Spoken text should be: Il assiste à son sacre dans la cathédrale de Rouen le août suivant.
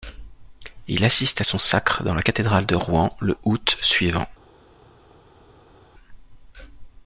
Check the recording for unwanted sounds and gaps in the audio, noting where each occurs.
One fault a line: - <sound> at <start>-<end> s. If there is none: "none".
none